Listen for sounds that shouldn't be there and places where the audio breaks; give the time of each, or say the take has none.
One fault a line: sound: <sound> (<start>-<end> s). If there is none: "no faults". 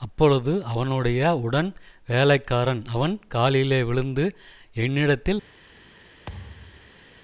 sound: thud (6.3-7.0 s)